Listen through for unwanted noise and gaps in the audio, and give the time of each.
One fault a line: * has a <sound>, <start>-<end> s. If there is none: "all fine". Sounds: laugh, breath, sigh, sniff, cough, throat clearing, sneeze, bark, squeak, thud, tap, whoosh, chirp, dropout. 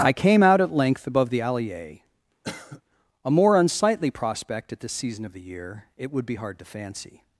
* has a cough, 2.4-2.8 s